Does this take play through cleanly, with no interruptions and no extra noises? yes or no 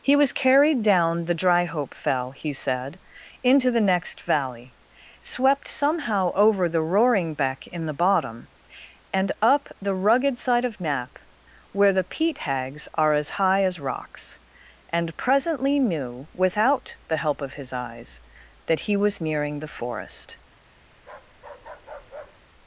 no